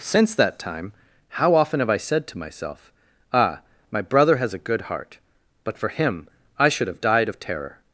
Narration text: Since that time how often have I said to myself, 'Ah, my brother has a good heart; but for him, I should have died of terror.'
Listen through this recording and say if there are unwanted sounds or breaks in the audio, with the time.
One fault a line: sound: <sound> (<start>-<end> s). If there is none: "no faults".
no faults